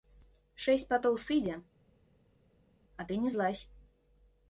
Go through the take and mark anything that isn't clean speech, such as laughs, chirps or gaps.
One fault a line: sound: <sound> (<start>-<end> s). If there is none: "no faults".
no faults